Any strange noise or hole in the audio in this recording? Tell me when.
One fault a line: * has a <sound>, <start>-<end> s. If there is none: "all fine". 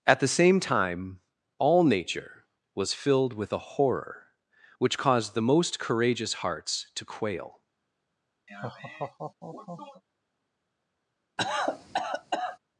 * has a laugh, 8.5-10.0 s
* has a cough, 11.4-12.6 s